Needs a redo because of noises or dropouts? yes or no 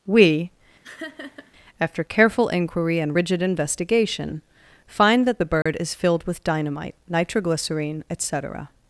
yes